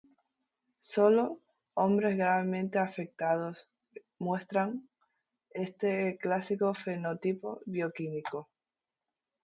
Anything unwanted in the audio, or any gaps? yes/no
no